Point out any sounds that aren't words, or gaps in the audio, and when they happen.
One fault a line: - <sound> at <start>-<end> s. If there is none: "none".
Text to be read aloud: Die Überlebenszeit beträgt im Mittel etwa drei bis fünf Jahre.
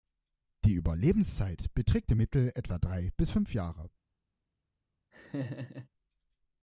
- laugh at 5.1-5.9 s